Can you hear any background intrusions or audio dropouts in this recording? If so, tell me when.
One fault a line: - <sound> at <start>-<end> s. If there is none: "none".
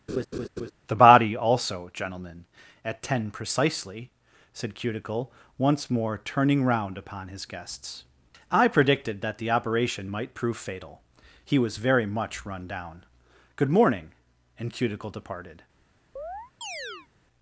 - laugh at 0.1-0.7 s
- chirp at 16.2-17.1 s